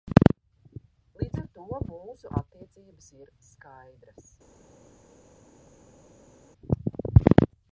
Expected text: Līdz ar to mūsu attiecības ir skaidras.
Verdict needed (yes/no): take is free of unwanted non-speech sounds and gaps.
yes